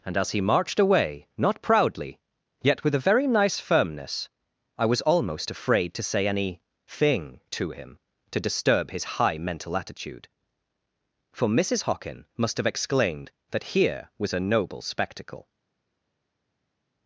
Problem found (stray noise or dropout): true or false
false